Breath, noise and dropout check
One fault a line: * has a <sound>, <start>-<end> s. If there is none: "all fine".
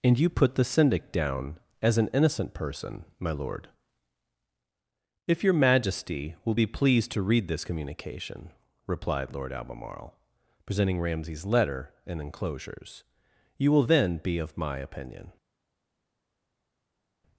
all fine